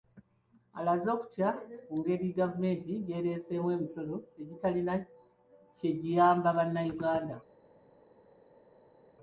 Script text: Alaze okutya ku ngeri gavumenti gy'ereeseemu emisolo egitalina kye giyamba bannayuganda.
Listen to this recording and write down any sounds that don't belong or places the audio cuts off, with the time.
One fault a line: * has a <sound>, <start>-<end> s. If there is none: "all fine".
all fine